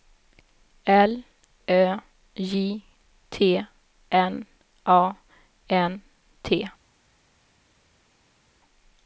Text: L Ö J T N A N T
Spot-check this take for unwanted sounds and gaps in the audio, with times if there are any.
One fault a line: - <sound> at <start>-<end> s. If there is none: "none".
none